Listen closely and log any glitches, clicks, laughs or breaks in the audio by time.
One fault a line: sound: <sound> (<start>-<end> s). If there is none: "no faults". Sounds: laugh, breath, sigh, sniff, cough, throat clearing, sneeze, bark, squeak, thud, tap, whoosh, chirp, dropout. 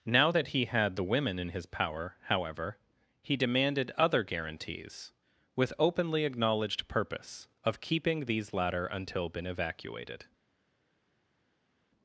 no faults